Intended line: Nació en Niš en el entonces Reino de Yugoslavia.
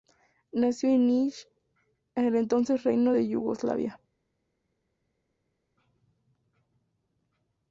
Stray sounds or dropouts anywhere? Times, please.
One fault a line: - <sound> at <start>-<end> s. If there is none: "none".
none